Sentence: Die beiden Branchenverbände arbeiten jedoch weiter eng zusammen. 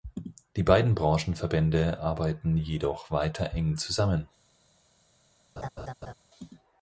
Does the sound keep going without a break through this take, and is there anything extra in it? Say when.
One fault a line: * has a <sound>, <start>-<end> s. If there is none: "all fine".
* has a laugh, 5.6-6.1 s